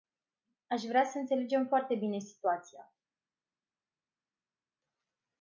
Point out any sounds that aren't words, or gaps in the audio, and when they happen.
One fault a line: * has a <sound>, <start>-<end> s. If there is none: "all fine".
all fine